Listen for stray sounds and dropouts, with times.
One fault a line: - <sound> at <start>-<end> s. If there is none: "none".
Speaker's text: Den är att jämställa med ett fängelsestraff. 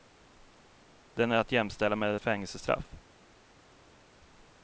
none